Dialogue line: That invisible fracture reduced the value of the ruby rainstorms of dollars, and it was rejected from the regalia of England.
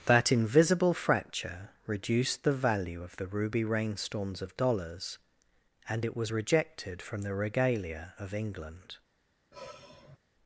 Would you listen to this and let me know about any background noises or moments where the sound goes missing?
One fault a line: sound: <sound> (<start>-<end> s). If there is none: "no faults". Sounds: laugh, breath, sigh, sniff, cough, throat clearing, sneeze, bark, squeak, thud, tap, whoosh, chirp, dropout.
sound: sigh (9.5-10.2 s)